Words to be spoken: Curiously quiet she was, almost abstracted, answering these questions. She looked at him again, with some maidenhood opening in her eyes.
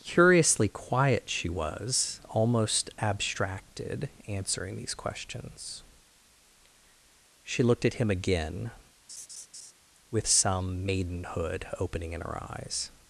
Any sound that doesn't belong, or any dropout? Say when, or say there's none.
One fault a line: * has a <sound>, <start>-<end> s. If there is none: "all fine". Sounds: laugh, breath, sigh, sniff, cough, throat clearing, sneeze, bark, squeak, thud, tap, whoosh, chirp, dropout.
* has a laugh, 9.1-9.7 s